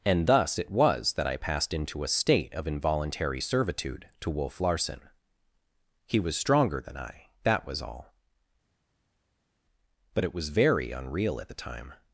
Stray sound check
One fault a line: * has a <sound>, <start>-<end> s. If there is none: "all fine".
all fine